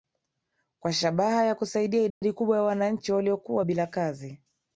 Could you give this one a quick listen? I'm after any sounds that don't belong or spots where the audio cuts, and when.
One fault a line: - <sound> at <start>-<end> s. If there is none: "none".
- dropout at 2.1-2.2 s